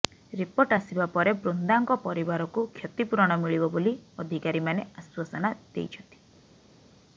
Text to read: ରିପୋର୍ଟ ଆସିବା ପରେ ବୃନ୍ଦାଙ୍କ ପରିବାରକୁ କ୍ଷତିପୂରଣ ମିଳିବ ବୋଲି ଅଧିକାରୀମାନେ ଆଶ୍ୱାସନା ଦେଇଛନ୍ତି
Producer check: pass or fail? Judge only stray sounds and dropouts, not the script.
pass